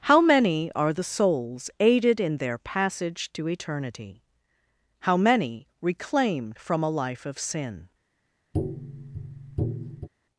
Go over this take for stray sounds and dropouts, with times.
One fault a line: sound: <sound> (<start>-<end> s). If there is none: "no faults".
sound: tap (8.5-10.1 s)